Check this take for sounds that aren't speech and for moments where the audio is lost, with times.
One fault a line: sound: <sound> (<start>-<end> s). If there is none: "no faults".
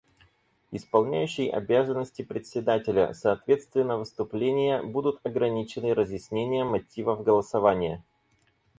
no faults